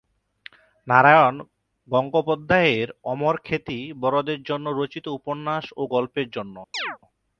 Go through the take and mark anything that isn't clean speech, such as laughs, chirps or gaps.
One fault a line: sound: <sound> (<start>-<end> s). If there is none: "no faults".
sound: chirp (6.7-7.0 s)